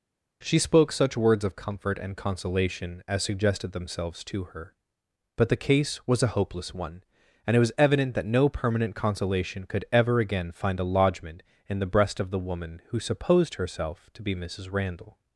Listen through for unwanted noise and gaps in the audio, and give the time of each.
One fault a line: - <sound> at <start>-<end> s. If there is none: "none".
none